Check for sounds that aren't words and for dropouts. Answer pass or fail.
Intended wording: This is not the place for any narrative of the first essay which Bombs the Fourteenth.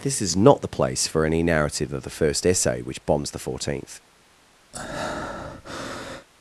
fail